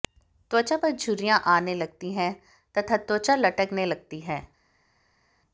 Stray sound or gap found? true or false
false